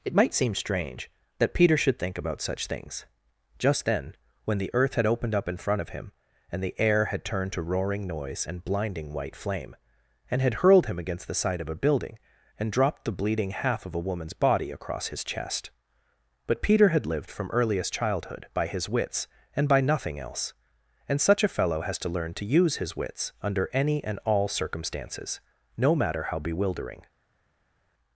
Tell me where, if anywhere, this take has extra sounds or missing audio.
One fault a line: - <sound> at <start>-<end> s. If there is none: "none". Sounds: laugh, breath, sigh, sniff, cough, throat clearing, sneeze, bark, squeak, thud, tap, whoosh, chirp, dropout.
none